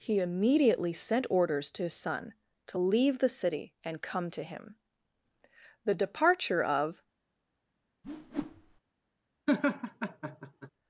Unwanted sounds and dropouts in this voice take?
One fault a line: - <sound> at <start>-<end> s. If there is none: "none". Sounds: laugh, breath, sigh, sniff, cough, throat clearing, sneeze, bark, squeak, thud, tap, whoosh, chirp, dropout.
- whoosh at 8.0-8.8 s
- laugh at 9.5-10.7 s